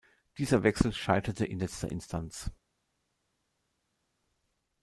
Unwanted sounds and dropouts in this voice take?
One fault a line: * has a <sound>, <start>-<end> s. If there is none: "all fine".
all fine